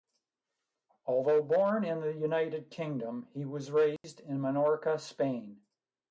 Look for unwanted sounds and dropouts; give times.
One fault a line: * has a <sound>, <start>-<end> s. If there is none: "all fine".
* has a dropout, 4.0-4.0 s